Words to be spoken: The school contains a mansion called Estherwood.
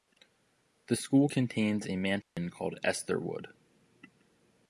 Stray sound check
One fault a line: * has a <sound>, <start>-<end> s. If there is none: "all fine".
* has a dropout, 2.2-2.4 s